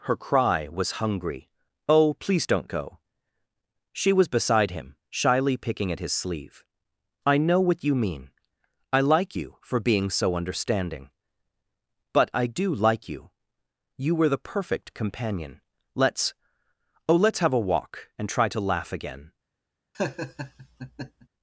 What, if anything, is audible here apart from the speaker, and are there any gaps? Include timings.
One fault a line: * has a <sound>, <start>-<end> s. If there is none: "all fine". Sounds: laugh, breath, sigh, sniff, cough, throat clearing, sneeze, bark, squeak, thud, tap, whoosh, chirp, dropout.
* has a laugh, 19.9-21.3 s